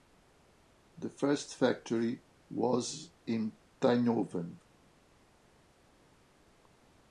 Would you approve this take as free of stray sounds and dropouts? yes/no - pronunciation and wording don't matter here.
yes